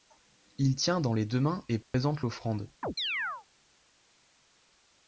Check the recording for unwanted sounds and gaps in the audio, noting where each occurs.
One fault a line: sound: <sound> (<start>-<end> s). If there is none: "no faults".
sound: dropout (1.8-1.9 s)
sound: chirp (2.8-3.5 s)